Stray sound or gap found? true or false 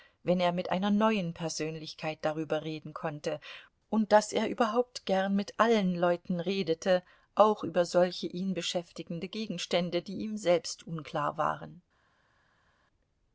false